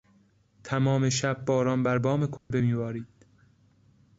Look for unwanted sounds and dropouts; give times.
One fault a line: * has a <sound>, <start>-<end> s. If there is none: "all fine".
* has a dropout, 2.4-2.5 s